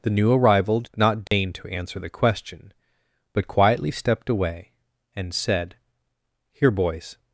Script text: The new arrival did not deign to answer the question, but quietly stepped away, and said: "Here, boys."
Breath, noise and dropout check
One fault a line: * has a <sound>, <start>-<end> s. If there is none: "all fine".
* has a dropout, 1.3-1.3 s